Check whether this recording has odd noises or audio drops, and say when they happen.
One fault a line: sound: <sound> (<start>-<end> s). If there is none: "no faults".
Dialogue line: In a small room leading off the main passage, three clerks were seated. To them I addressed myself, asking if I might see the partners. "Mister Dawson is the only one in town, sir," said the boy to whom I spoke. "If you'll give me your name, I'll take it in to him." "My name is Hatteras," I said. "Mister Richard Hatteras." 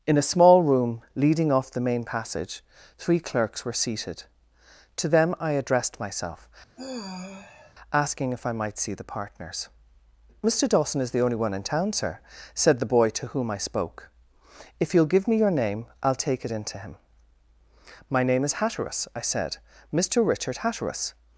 sound: sigh (6.8-7.7 s)